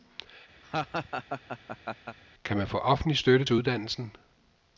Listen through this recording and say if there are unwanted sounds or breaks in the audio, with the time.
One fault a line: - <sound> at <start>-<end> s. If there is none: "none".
- laugh at 0.6-2.2 s